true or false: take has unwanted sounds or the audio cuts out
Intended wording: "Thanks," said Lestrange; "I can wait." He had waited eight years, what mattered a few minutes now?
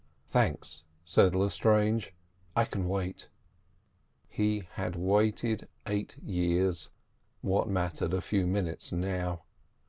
false